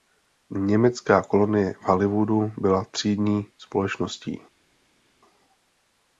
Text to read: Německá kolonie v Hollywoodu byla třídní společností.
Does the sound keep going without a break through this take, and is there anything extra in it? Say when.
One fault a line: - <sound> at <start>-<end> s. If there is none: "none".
none